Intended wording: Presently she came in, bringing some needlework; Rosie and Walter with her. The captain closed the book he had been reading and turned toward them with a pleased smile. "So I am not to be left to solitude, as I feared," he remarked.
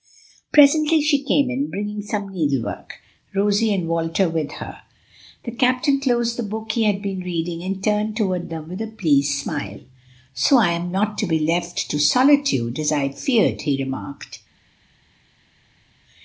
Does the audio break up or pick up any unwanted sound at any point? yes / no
no